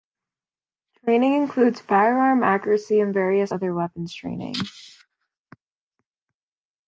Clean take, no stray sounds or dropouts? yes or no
yes